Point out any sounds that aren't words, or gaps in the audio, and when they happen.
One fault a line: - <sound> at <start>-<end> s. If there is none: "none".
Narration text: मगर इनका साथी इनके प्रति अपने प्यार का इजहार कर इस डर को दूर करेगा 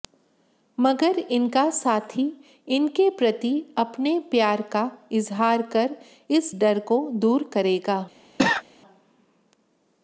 - cough at 8.4-8.6 s